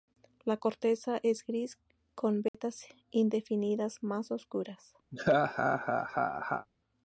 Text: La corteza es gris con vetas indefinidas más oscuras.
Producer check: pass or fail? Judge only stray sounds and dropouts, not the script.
fail